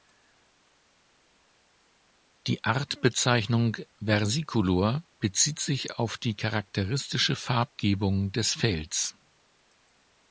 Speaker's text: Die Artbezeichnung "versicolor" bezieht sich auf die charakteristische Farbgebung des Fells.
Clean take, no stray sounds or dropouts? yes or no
yes